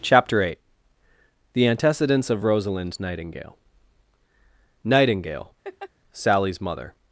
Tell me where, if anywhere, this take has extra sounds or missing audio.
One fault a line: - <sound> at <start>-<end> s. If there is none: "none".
- laugh at 5.6-5.9 s